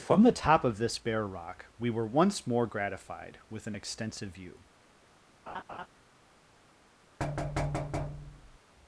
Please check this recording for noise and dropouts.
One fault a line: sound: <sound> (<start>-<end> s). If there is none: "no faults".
sound: laugh (5.5-5.9 s)
sound: thud (7.2-8.6 s)